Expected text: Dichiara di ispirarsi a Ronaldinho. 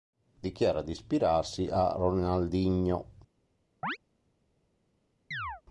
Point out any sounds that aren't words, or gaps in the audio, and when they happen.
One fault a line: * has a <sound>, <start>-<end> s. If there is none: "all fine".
* has a chirp, 3.8-4.0 s
* has a chirp, 5.3-5.6 s